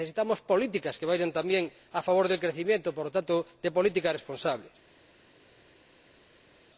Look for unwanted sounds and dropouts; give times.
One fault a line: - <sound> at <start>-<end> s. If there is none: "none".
none